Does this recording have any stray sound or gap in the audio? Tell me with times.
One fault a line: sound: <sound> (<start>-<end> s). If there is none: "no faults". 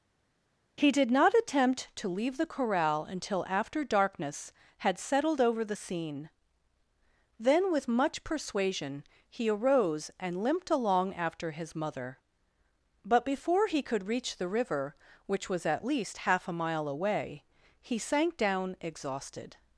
no faults